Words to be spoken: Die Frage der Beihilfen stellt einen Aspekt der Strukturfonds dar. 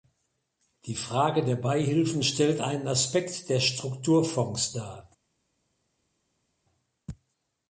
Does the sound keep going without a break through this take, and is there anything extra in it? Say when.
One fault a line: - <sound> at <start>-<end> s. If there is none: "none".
none